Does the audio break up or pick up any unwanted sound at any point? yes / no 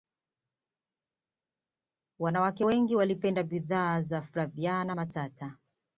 no